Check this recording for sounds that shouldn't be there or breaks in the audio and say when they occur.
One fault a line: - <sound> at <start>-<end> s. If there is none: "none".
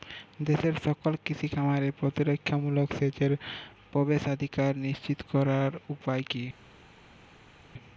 none